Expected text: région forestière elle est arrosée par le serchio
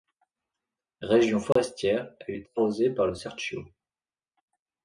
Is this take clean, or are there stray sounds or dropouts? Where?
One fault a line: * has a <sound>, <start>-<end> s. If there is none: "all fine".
* has a dropout, 1.5-1.6 s